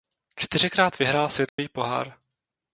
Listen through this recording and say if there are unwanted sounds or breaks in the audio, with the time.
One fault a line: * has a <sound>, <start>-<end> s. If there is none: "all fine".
* has a dropout, 1.5-1.6 s